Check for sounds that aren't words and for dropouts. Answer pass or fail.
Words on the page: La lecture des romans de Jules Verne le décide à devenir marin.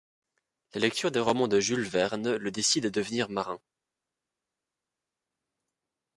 pass